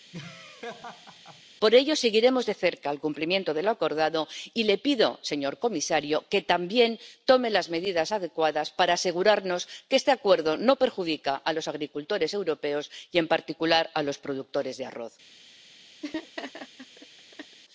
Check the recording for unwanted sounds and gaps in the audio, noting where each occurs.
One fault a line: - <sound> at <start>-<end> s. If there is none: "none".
- laugh at 0.1-1.4 s
- laugh at 16.0-17.6 s